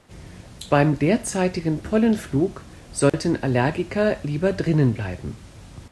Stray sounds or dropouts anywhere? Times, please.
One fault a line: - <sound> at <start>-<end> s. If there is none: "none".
- dropout at 3.1-3.1 s